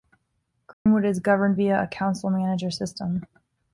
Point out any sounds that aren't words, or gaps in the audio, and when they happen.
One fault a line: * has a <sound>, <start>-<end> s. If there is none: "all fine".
* has a dropout, 0.7-0.9 s